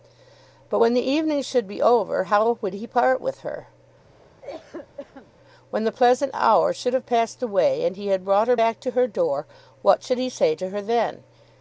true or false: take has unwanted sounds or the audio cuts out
true